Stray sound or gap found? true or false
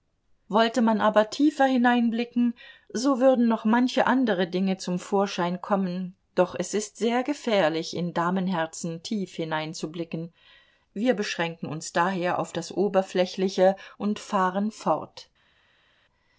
false